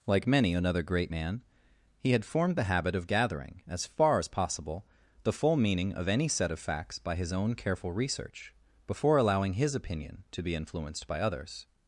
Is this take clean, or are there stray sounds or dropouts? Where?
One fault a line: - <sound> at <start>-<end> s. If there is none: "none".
none